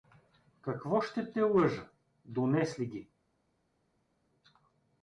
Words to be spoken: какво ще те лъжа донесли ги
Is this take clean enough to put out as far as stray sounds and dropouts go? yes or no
yes